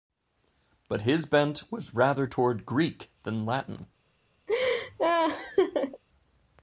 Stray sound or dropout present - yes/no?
yes